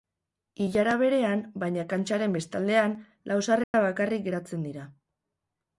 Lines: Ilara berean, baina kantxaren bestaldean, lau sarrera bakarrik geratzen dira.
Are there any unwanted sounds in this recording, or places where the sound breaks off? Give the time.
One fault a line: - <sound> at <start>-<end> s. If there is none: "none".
- dropout at 3.6-3.7 s